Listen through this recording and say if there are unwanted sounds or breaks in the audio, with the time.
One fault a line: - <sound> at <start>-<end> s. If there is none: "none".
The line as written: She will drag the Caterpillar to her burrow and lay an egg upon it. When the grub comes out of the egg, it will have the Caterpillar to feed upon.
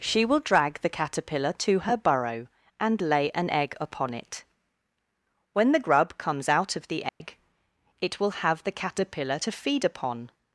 - dropout at 7.1-7.2 s